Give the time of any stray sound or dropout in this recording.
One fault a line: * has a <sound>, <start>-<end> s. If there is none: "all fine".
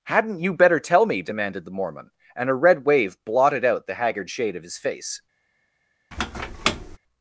* has a squeak, 6.1-7.0 s